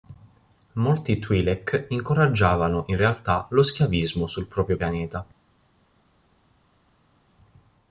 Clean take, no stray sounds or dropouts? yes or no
yes